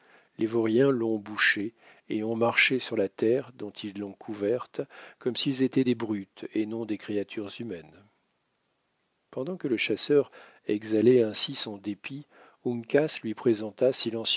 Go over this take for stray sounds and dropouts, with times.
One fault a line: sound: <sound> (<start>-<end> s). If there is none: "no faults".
no faults